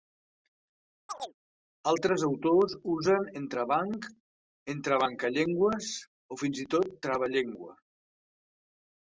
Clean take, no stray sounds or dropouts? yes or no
no